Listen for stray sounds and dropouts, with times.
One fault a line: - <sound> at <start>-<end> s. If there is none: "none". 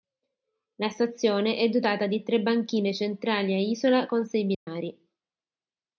- dropout at 4.5-4.7 s